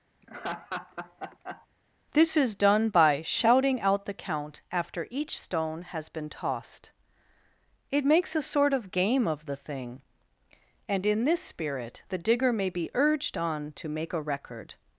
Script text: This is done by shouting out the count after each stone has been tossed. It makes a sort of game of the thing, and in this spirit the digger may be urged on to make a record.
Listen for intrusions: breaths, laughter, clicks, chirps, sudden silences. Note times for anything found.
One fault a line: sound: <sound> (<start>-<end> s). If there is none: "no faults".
sound: laugh (0.2-1.7 s)